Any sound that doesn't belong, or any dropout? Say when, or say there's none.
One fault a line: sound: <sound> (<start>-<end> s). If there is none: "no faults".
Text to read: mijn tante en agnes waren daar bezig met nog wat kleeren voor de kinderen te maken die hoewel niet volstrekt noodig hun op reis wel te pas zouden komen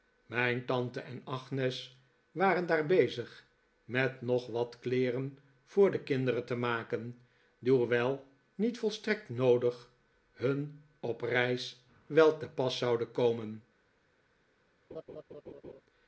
sound: laugh (14.9-15.8 s)